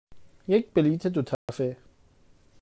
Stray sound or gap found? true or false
true